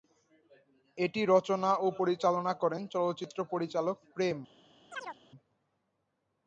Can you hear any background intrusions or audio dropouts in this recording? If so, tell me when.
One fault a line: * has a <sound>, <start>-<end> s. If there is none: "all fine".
* has a chirp, 4.9-5.2 s